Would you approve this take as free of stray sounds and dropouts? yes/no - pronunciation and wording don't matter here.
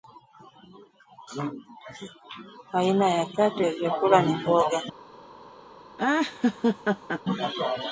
no